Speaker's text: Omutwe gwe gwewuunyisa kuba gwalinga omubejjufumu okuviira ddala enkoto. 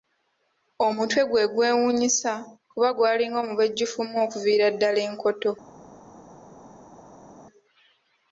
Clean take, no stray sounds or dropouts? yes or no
yes